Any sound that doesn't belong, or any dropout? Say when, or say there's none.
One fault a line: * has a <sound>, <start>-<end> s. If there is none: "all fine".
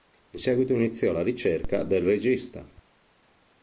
all fine